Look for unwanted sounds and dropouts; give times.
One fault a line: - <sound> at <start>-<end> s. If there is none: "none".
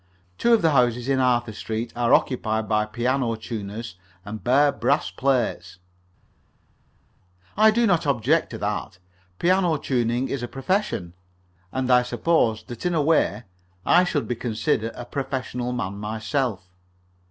none